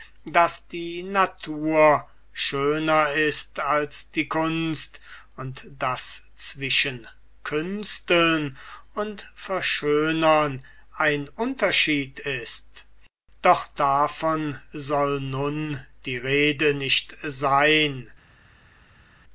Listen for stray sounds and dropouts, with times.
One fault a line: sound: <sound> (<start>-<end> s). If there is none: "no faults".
no faults